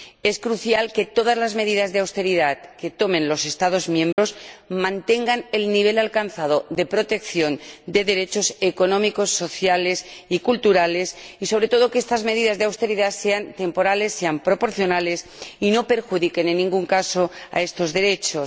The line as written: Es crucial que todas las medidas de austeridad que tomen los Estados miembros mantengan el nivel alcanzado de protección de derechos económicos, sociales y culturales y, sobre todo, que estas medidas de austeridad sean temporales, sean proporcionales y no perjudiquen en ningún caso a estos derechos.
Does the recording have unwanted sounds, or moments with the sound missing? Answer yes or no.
yes